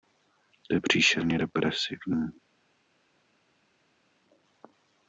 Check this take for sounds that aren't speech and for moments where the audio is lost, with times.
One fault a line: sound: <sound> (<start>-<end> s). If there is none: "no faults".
no faults